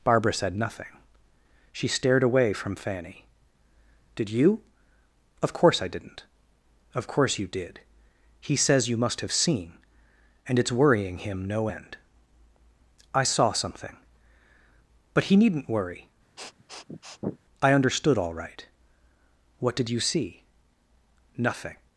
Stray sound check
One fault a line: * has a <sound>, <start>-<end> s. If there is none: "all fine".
* has a sniff, 16.4-17.4 s